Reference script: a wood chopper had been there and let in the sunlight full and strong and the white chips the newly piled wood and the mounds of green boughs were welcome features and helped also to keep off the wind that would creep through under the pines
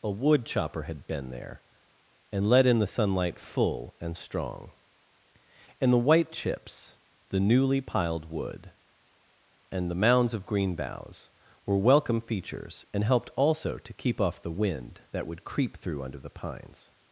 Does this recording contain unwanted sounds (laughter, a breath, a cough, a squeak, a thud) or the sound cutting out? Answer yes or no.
no